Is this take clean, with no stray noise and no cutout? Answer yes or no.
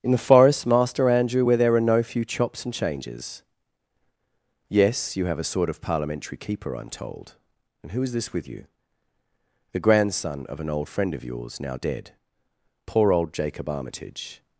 yes